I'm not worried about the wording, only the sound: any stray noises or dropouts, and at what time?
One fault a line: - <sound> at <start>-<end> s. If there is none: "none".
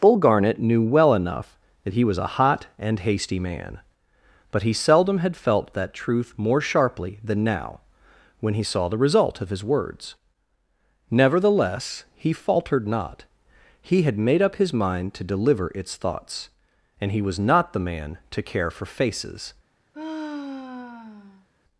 - sigh at 19.9-21.5 s